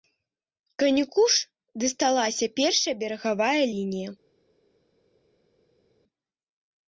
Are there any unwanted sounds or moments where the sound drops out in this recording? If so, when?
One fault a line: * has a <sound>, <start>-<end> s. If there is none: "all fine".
all fine